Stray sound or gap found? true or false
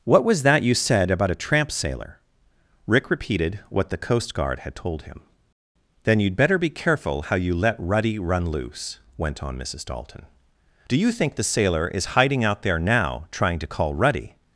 false